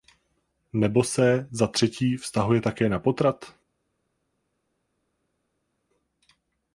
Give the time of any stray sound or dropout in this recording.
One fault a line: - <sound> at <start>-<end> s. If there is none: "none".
none